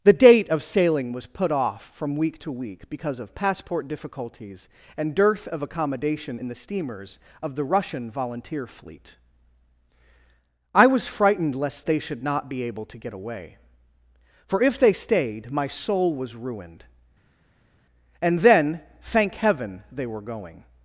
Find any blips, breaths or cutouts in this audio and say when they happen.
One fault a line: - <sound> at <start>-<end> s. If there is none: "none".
none